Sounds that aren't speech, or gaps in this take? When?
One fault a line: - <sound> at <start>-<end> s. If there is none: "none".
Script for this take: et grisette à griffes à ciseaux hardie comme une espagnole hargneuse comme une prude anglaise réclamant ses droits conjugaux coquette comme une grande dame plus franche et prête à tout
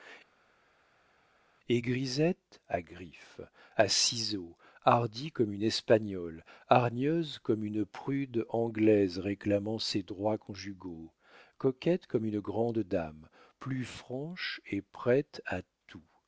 none